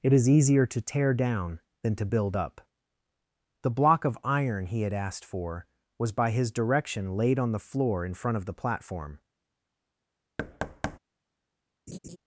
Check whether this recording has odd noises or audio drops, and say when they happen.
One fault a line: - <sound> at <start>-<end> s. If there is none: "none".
- thud at 10.4-11.0 s
- laugh at 11.9-12.2 s